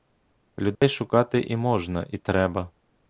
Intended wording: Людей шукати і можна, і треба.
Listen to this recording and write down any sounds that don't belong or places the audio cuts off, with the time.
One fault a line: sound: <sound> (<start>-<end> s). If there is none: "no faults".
sound: dropout (0.8-0.8 s)